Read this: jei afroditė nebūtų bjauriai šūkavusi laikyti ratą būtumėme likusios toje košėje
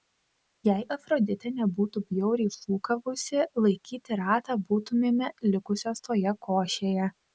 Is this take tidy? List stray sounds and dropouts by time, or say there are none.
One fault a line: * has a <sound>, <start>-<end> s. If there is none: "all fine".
all fine